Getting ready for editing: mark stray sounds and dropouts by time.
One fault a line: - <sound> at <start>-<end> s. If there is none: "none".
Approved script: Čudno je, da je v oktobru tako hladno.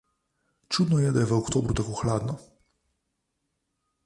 none